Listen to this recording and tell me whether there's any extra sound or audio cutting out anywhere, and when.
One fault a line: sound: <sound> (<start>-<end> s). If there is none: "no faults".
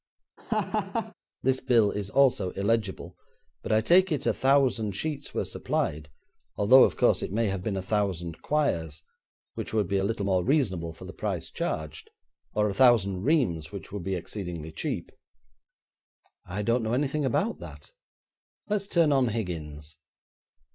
sound: laugh (0.4-1.1 s)